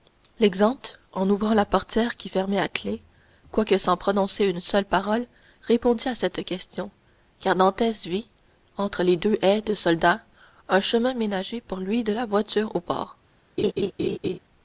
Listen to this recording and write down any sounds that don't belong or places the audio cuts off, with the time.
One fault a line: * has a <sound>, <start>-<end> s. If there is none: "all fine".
* has a laugh, 13.6-14.4 s